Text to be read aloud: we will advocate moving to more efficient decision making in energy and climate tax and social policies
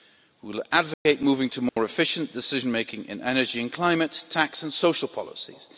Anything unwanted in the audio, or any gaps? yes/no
yes